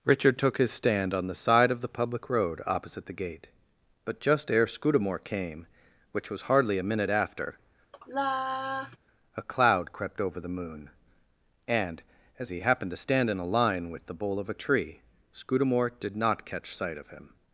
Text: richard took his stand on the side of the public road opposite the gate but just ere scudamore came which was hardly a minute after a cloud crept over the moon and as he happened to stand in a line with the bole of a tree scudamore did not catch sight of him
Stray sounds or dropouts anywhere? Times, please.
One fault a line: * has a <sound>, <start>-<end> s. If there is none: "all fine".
* has a sigh, 7.9-9.0 s